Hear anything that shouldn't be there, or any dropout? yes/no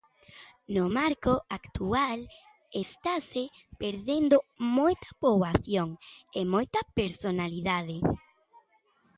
no